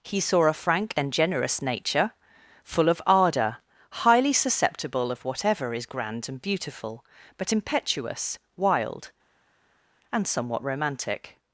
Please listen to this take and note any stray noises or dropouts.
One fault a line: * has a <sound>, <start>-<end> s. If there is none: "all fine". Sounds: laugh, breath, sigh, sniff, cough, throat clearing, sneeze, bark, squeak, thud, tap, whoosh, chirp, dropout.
all fine